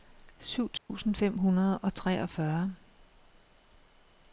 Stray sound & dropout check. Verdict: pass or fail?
fail